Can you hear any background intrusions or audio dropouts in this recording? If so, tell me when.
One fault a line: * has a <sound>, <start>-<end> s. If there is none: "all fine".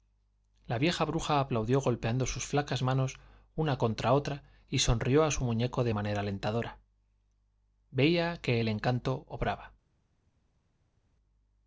all fine